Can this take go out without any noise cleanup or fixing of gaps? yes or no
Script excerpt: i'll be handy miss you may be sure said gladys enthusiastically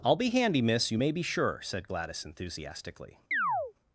no